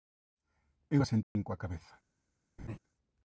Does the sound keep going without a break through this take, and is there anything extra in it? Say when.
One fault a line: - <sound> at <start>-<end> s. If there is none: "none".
- dropout at 1.2-1.4 s
- laugh at 2.6-2.8 s